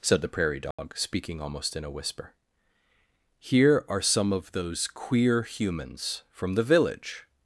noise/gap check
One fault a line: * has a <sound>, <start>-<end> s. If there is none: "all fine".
* has a dropout, 0.7-0.8 s